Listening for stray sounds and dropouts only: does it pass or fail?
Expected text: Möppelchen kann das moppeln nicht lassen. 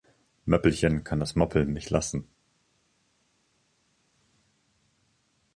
pass